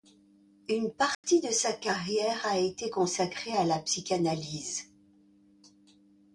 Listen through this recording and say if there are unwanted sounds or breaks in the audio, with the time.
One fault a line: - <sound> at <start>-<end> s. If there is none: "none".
- dropout at 1.1-1.2 s